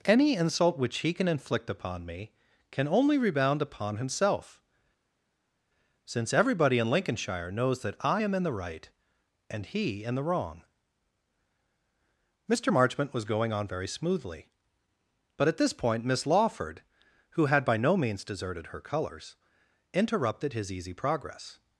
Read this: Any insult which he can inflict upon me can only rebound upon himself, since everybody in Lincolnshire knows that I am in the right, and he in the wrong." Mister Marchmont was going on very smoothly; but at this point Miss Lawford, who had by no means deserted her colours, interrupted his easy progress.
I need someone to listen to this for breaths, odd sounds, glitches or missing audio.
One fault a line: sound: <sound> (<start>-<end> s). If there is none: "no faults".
no faults